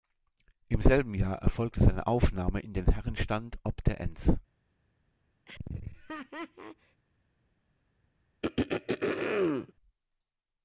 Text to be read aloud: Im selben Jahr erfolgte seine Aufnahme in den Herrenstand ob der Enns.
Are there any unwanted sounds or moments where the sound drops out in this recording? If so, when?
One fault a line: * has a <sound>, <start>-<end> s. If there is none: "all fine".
* has a laugh, 5.5-7.0 s
* has a throat clearing, 8.4-9.7 s